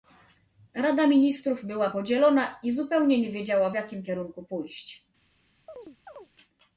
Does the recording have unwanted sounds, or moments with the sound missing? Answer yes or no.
yes